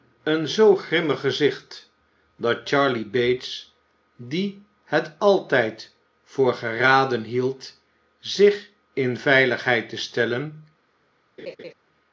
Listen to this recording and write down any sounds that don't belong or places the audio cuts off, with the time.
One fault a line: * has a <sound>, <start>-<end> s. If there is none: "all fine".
* has a laugh, 11.4-11.7 s